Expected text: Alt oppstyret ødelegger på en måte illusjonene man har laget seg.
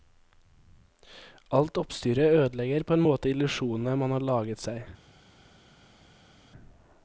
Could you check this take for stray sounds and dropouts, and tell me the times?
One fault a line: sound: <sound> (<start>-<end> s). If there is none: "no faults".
no faults